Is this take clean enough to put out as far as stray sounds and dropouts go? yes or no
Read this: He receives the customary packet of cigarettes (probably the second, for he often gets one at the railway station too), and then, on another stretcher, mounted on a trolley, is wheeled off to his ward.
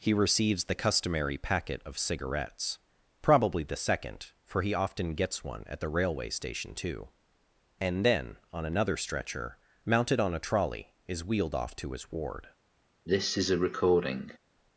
no